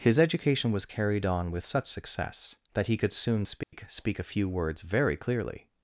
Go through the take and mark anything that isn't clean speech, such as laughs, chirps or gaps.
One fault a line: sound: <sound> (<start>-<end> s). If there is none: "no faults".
sound: dropout (3.6-3.7 s)